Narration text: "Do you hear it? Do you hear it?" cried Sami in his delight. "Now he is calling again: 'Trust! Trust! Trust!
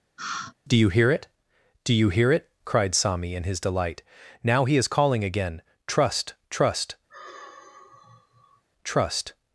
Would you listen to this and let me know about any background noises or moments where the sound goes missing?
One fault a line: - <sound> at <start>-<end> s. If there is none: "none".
- sigh at 0.2-0.5 s
- sigh at 7.1-8.6 s